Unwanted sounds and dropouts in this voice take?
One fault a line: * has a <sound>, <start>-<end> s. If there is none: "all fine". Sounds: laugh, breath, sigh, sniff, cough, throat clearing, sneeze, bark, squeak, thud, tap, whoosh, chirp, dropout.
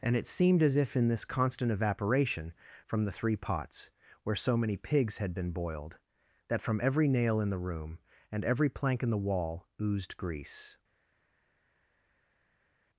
all fine